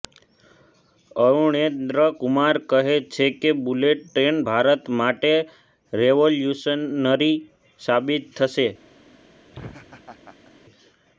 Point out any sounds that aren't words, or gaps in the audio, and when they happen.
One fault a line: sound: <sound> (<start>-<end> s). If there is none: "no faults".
sound: laugh (9.5-10.5 s)